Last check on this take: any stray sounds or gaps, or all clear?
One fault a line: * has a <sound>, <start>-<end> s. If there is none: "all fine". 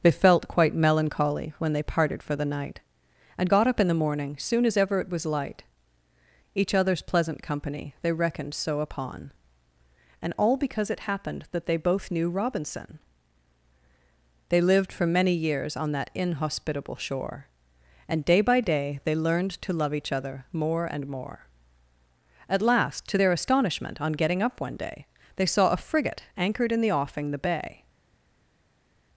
all fine